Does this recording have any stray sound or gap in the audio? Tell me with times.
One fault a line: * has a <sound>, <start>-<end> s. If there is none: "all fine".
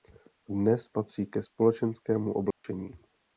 * has a dropout, 2.5-2.6 s